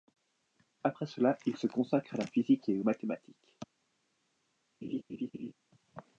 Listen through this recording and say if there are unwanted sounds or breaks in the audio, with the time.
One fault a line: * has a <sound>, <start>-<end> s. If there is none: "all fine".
* has a laugh, 4.8-5.5 s